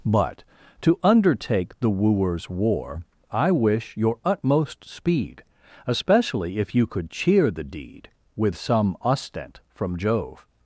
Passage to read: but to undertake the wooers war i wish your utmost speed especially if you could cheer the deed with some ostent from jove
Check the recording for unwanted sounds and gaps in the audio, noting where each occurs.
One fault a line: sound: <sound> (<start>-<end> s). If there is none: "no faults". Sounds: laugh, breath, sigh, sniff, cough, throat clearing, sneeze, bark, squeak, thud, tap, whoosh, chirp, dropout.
no faults